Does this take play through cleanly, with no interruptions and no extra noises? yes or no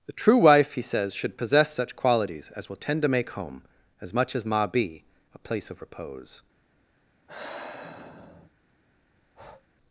no